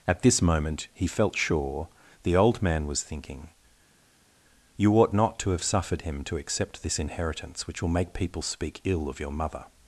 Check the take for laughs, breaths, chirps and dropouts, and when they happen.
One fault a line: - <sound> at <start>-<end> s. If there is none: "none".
none